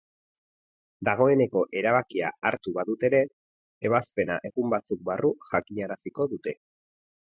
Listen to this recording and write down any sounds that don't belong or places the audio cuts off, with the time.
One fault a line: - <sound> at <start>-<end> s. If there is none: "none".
none